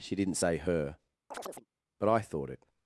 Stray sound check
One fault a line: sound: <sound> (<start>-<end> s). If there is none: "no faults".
sound: chirp (1.3-1.7 s)